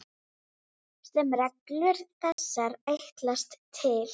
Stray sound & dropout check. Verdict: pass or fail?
fail